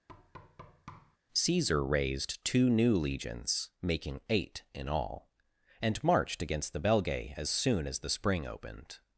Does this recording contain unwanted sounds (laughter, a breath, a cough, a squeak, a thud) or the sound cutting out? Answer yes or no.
yes